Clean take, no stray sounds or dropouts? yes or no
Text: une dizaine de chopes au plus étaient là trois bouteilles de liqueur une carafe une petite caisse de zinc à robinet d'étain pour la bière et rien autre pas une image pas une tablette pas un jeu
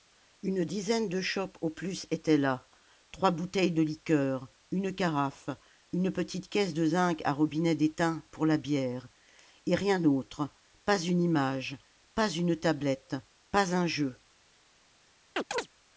no